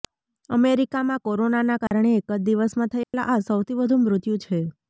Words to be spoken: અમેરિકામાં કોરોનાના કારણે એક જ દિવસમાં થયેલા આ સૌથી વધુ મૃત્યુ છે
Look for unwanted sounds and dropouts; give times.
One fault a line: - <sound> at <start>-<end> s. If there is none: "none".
- dropout at 1.9-1.9 s
- dropout at 3.0-3.1 s